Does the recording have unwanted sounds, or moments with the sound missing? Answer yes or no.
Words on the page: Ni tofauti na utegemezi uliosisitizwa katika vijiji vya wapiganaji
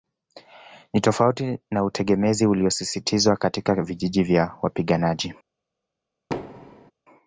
yes